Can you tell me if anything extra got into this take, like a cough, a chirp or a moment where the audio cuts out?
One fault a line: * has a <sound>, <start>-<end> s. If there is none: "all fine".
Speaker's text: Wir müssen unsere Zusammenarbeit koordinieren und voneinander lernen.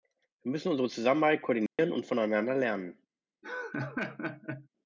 * has a dropout, 1.7-1.8 s
* has a laugh, 3.4-4.7 s